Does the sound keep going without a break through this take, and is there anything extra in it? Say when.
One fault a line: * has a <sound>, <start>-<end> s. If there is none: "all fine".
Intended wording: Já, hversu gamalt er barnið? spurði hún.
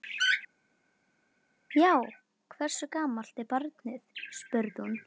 all fine